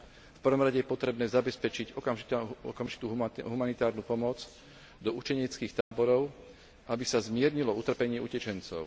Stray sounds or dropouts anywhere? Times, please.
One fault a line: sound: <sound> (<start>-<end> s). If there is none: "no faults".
sound: dropout (5.8-5.9 s)